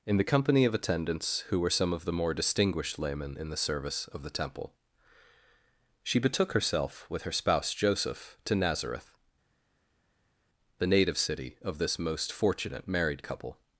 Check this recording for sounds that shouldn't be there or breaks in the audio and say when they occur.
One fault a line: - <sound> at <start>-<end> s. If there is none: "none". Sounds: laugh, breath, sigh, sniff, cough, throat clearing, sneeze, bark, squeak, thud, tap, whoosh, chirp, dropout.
none